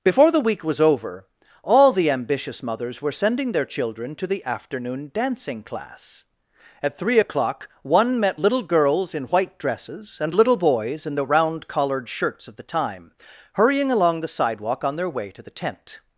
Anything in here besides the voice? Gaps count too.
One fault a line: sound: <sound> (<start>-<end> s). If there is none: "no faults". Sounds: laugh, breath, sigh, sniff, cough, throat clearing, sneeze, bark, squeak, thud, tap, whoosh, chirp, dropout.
no faults